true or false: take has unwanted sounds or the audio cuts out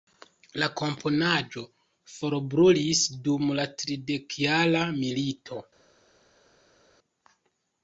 false